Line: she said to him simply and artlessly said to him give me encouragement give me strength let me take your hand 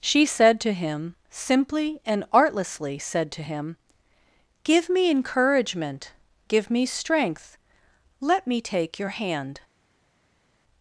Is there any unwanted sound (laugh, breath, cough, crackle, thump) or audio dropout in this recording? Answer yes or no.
no